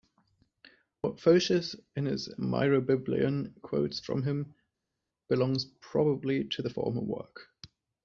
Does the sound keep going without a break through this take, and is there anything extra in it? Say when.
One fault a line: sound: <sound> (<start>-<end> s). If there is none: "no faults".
no faults